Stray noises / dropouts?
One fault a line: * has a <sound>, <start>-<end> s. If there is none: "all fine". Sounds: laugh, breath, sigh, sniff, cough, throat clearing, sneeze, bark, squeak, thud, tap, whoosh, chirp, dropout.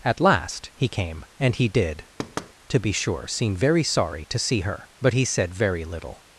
* has a thud, 2.2-2.5 s